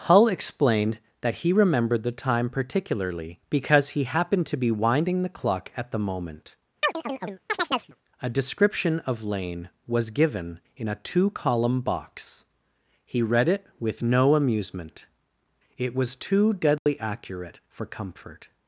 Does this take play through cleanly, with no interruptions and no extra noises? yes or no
no